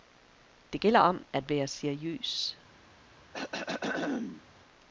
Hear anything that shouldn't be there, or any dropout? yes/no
yes